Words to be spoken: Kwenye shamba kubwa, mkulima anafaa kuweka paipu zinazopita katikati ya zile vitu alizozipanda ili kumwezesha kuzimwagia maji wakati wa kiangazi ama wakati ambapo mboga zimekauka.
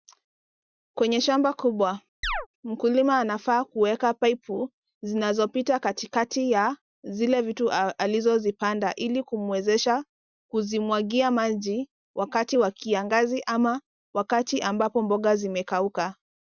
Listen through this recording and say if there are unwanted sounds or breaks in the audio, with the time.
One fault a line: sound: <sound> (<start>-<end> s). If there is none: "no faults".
sound: chirp (2.2-2.5 s)